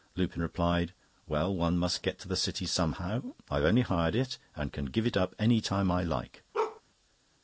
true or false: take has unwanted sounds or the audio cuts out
true